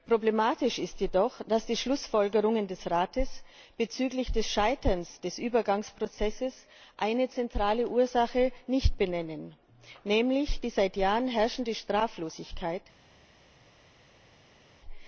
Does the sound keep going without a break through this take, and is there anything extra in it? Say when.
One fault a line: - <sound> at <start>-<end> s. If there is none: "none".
none